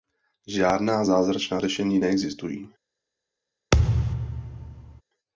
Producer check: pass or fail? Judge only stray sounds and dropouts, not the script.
fail